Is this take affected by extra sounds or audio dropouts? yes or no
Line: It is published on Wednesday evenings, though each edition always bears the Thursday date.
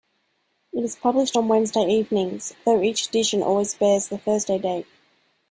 no